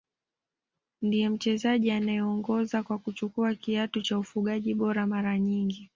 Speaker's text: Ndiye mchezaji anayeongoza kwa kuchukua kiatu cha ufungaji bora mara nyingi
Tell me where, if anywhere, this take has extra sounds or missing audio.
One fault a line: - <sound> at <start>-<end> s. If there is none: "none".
none